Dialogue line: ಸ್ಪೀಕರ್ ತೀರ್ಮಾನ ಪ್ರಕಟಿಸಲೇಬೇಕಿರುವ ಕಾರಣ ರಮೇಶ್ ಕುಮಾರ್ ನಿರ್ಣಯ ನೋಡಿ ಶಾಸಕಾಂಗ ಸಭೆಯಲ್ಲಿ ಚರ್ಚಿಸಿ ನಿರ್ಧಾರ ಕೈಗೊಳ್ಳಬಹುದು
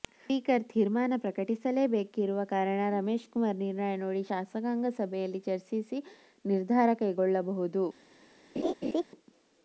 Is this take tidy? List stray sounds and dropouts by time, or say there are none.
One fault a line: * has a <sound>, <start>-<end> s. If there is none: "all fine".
* has a laugh, 8.6-9.0 s